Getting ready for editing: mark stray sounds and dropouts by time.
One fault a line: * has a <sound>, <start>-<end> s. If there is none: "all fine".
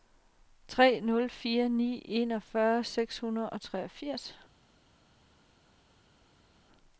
all fine